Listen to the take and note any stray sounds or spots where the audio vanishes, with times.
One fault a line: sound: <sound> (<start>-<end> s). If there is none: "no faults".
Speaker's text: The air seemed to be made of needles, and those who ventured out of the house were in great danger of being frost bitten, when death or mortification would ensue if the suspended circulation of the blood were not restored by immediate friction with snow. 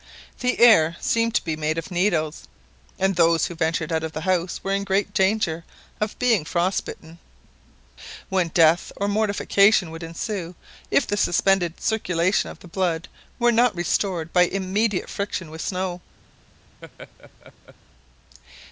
sound: laugh (16.8-17.8 s)